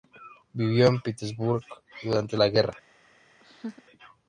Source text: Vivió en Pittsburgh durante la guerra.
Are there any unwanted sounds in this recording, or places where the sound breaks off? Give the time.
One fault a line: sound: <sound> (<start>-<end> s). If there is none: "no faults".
sound: laugh (3.4-3.8 s)